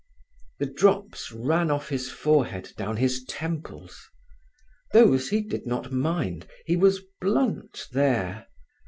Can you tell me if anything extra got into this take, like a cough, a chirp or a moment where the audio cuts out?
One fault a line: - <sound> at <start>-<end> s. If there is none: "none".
none